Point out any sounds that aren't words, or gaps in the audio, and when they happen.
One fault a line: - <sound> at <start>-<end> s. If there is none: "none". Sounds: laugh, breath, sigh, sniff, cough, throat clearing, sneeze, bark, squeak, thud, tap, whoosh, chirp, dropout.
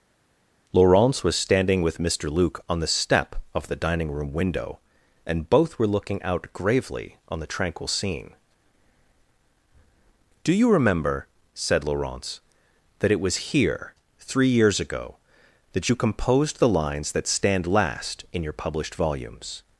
none